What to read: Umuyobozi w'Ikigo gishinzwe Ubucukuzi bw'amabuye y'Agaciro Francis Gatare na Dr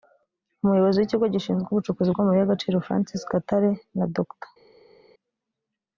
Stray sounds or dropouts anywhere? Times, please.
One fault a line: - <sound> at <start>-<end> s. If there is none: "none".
none